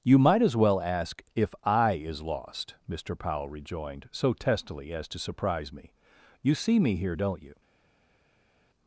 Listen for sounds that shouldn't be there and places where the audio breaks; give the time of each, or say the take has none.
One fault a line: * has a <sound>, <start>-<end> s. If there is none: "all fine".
all fine